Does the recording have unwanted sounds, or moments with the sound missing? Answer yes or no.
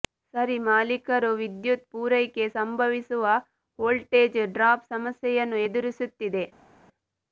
no